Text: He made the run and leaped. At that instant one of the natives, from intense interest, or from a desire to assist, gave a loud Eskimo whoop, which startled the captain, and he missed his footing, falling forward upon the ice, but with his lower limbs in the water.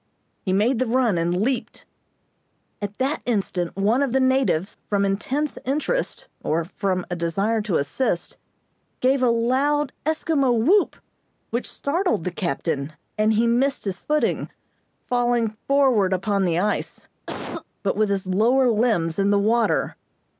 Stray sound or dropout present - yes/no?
yes